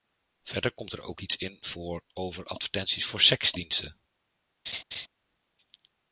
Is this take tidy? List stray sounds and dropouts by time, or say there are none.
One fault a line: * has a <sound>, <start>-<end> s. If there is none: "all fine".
* has a laugh, 4.7-5.1 s